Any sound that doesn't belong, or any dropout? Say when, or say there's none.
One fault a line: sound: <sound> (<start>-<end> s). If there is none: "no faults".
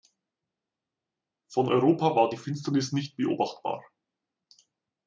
no faults